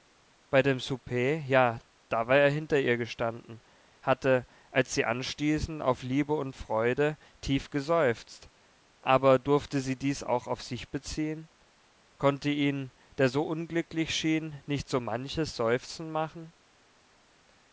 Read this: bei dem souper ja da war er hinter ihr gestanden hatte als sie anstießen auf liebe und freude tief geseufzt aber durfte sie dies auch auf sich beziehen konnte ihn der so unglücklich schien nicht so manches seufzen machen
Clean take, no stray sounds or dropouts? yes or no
yes